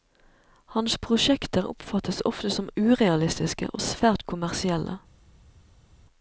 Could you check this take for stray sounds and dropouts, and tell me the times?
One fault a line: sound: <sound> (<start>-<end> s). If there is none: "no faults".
no faults